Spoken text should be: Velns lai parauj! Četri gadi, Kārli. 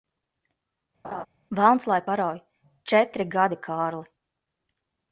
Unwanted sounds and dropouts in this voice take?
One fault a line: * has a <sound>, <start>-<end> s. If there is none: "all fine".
* has a laugh, 1.0-1.3 s